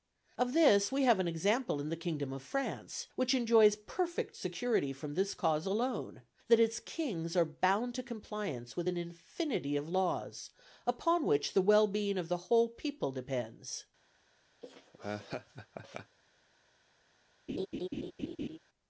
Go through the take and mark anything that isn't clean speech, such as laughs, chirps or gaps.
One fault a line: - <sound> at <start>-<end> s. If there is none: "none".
- laugh at 14.6-16.2 s
- laugh at 17.5-18.6 s